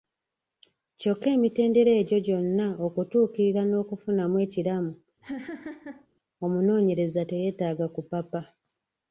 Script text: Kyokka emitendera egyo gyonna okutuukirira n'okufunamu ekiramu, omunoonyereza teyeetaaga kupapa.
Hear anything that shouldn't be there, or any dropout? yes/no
yes